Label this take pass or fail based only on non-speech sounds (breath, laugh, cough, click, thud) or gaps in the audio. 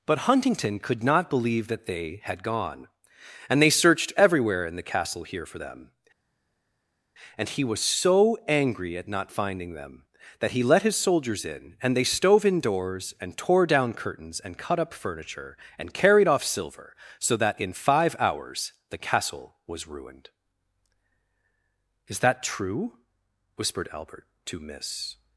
pass